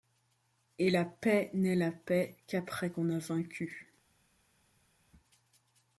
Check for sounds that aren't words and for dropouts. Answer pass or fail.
pass